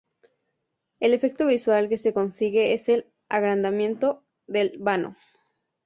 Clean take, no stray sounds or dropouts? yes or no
yes